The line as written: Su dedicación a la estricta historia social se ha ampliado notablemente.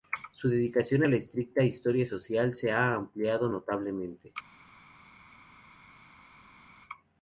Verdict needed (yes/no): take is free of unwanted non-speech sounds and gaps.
yes